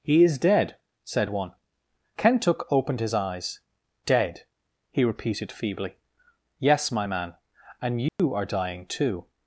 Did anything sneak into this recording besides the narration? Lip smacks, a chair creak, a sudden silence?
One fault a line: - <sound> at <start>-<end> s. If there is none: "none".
- dropout at 8.1-8.2 s